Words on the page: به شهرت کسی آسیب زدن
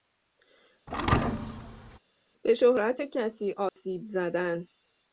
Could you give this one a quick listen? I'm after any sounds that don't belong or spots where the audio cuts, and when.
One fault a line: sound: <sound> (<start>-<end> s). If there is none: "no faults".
sound: thud (0.9-2.0 s)
sound: dropout (3.7-3.8 s)